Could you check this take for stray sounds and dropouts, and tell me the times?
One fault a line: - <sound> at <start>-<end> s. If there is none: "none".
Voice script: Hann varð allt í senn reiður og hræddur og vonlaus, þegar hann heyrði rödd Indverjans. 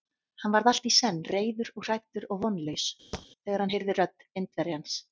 - thud at 3.1-3.3 s